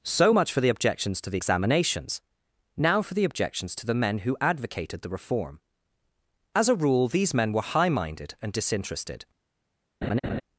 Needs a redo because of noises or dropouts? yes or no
yes